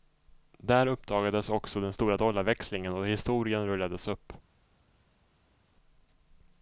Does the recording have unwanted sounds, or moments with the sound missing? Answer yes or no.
no